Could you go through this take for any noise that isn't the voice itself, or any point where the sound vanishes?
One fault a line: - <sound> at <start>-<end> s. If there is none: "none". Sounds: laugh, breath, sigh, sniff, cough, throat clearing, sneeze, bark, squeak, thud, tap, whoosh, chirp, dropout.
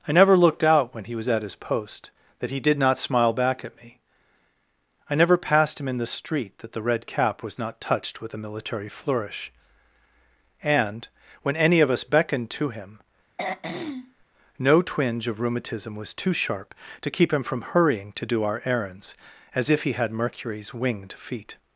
- throat clearing at 13.4-14.3 s